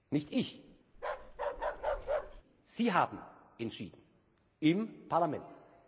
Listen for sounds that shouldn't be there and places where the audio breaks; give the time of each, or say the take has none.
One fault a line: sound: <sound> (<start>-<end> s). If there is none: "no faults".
sound: bark (0.9-2.4 s)